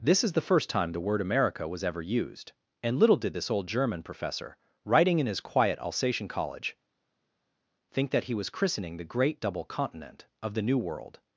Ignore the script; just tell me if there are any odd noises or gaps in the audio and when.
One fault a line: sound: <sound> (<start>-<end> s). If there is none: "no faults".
no faults